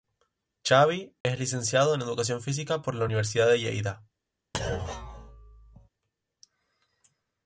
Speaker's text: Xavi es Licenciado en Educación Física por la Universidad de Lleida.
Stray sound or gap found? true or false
true